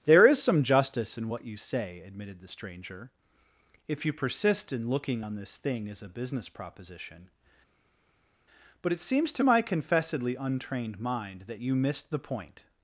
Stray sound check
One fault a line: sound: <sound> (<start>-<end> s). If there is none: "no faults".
no faults